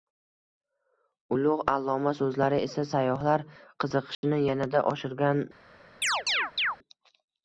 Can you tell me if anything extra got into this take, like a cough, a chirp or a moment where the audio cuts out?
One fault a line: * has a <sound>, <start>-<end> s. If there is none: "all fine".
* has a dropout, 4.1-4.2 s
* has a chirp, 6.0-6.8 s